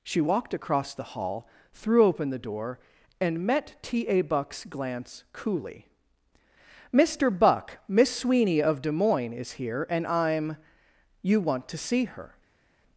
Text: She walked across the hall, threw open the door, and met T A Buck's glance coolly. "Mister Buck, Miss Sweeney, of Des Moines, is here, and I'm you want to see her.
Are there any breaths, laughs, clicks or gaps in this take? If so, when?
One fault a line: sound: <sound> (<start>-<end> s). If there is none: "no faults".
no faults